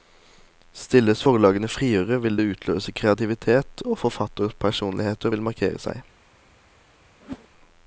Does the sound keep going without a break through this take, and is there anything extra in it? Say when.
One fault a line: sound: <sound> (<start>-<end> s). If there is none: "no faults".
sound: whoosh (7.2-7.5 s)